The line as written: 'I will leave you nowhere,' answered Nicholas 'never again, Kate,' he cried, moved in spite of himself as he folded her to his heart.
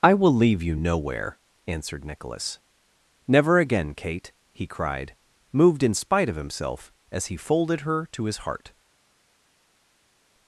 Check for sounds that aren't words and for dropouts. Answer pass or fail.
pass